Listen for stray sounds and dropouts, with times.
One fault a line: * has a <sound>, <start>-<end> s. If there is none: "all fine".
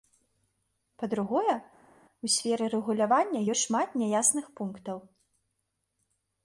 all fine